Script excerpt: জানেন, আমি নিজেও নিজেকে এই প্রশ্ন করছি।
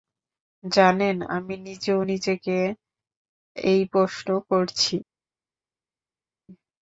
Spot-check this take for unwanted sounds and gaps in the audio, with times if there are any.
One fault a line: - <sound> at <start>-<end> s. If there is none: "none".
none